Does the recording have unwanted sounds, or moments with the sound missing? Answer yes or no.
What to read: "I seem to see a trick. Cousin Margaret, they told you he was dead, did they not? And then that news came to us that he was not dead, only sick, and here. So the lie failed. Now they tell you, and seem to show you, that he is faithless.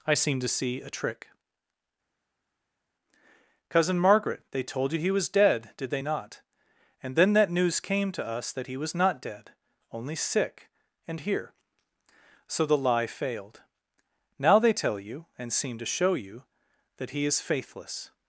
no